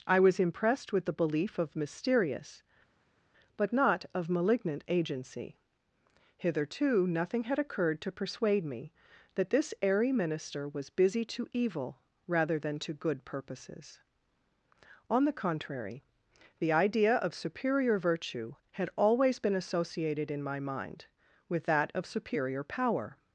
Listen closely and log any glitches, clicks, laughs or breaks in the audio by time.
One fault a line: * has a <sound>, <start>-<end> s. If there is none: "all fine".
all fine